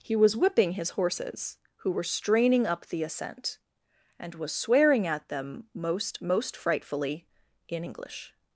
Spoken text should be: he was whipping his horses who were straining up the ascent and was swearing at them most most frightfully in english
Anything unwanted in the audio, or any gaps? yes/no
no